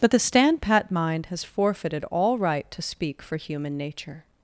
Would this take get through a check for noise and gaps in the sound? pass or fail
pass